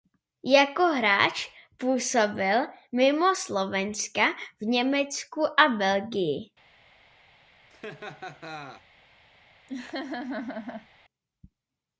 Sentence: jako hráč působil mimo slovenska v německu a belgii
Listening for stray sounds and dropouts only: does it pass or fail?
fail